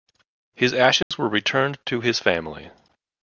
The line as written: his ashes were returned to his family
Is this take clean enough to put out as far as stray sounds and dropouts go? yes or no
no